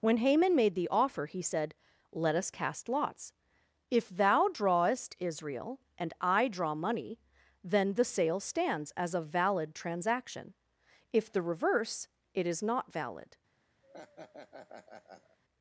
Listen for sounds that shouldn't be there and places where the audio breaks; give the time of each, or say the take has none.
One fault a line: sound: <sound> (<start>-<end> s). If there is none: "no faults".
sound: laugh (13.8-15.4 s)